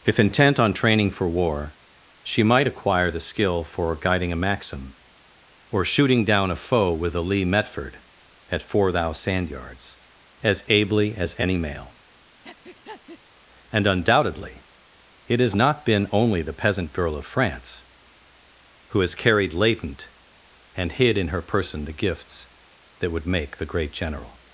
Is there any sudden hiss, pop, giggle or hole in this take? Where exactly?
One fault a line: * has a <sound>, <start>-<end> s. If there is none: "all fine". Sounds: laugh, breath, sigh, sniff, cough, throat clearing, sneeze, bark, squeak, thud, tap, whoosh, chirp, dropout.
* has a breath, 12.4-13.2 s